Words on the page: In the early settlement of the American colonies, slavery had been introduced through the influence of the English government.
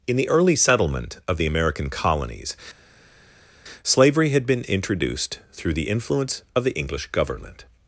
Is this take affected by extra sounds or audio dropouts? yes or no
no